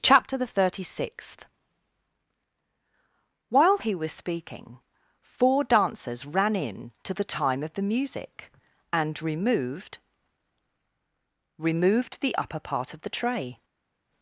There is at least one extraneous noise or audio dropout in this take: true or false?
false